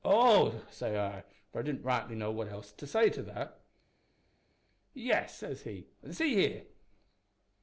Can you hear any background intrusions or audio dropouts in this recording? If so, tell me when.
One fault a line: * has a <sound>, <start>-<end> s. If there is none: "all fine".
all fine